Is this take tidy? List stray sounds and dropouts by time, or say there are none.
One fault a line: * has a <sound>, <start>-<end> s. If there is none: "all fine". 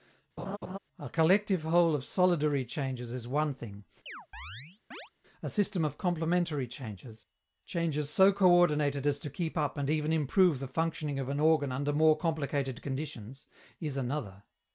* has a laugh, 0.4-0.8 s
* has a chirp, 4.1-5.1 s